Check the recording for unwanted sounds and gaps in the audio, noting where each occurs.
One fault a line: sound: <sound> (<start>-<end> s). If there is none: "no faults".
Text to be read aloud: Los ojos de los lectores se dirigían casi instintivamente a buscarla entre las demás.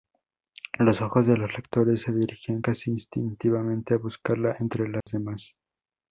sound: dropout (5.0-5.1 s)